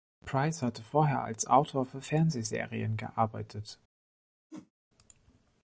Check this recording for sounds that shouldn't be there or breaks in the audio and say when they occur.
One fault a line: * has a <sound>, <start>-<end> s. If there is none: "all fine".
* has a whoosh, 4.5-4.7 s